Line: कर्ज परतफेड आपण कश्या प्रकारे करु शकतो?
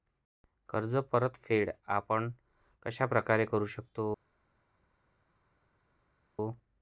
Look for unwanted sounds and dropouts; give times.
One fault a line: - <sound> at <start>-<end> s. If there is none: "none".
none